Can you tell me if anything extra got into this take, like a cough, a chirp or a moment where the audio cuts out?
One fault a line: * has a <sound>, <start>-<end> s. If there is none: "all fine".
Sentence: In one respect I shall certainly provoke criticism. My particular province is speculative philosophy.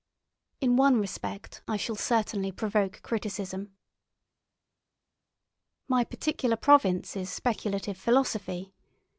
all fine